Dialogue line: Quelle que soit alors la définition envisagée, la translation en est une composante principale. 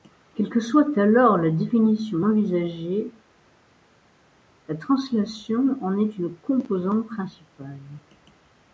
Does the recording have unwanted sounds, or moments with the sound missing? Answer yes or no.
no